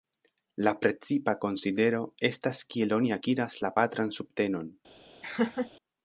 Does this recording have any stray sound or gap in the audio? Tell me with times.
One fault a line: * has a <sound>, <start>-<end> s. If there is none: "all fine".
* has a laugh, 5.2-5.7 s